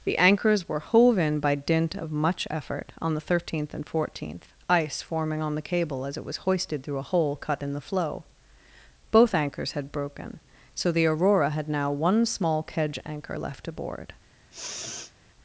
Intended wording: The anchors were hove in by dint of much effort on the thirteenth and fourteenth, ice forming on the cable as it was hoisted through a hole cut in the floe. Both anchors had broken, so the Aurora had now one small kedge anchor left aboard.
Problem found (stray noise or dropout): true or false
true